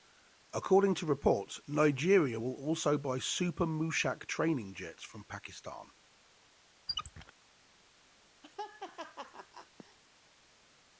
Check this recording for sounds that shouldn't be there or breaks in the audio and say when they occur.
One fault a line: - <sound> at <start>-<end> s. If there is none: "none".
- squeak at 6.9-7.3 s
- laugh at 8.4-10.0 s